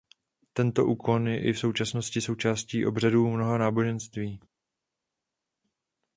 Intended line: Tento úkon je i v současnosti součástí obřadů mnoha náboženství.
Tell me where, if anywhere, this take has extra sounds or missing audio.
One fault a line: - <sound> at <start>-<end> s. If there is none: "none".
none